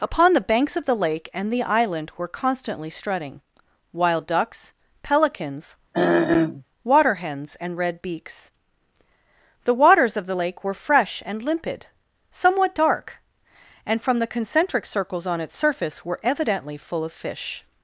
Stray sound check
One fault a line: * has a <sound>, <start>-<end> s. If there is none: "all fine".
* has a throat clearing, 5.9-6.6 s